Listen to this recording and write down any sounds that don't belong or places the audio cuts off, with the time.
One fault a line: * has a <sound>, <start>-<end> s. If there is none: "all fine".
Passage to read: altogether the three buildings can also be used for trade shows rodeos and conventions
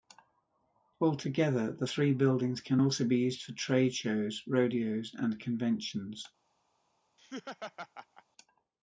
* has a laugh, 7.2-8.2 s